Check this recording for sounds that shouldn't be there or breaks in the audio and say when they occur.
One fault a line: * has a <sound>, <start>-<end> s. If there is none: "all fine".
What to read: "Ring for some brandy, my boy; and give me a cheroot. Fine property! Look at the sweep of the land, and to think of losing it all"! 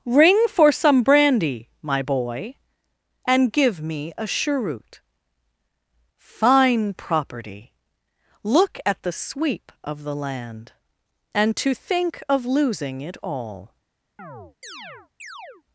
* has a chirp, 14.2-15.6 s